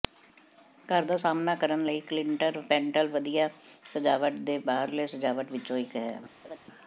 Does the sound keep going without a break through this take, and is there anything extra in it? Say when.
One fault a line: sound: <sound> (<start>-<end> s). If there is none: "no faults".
sound: laugh (6.4-6.6 s)